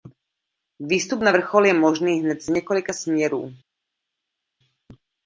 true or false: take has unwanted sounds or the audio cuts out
false